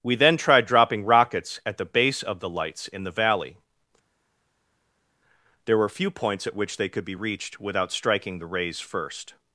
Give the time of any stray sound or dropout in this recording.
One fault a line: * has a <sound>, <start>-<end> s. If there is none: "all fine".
all fine